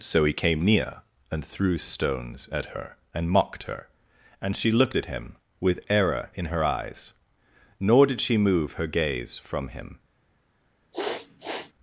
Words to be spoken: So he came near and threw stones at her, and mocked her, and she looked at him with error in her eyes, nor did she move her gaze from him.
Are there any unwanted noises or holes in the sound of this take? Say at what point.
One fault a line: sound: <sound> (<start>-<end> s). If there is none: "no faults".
sound: sniff (10.9-11.7 s)